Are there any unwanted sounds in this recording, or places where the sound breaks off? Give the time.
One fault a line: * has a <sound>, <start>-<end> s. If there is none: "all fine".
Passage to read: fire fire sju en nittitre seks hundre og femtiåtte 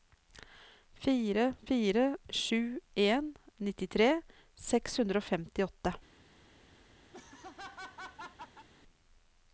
* has a laugh, 7.1-8.7 s